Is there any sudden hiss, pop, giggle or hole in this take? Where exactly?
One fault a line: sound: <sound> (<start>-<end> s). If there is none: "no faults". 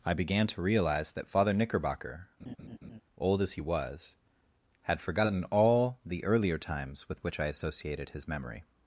sound: laugh (2.4-3.0 s)